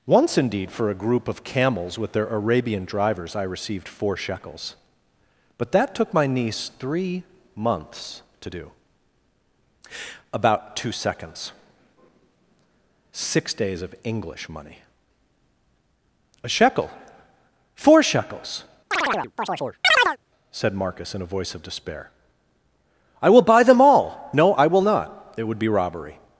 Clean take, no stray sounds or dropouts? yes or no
no